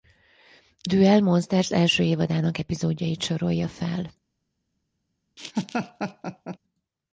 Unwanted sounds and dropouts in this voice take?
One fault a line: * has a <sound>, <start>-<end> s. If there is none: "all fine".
* has a laugh, 5.4-6.6 s